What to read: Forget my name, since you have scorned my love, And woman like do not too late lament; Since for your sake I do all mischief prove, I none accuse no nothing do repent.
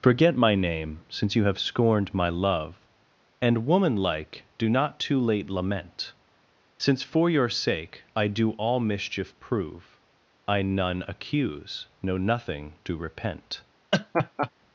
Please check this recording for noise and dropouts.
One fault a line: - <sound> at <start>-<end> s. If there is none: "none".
- laugh at 13.9-14.5 s